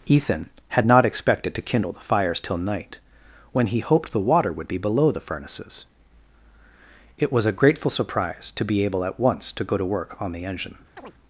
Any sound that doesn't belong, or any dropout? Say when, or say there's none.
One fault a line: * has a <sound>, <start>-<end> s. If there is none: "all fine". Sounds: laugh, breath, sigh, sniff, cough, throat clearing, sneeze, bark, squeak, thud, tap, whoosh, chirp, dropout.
* has a chirp, 11.0-11.1 s